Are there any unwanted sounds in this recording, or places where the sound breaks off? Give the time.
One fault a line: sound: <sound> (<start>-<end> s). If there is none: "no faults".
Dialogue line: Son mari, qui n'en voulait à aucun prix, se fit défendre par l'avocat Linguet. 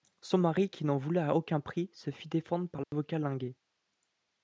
sound: dropout (2.8-2.9 s)